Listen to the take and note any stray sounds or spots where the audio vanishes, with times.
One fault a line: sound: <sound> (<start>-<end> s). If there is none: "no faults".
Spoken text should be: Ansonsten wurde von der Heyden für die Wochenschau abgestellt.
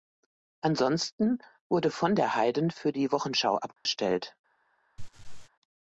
sound: dropout (3.8-3.9 s)
sound: laugh (5.0-5.5 s)